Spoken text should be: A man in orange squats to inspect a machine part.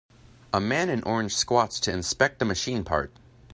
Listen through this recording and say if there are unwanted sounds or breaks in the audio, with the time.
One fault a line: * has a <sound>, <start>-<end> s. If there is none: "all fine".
all fine